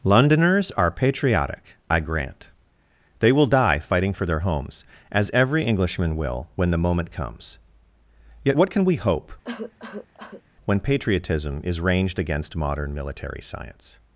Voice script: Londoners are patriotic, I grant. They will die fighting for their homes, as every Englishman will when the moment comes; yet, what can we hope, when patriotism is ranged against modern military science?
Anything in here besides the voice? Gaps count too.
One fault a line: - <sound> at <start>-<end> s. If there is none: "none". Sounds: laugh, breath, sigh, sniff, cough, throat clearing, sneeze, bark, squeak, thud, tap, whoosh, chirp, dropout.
- cough at 9.4-10.4 s